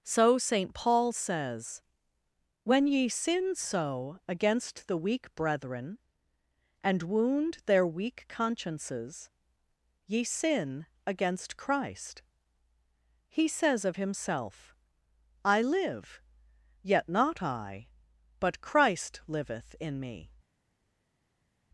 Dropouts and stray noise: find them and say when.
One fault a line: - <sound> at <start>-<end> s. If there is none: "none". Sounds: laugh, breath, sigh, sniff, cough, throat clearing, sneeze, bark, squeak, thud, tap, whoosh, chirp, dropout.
none